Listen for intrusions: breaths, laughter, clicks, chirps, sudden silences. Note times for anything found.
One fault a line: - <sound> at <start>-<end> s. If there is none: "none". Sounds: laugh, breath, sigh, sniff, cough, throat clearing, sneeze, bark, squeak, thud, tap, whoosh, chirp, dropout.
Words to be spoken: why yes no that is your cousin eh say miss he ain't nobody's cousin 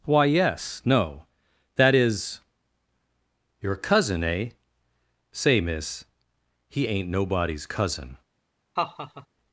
- laugh at 8.8-9.3 s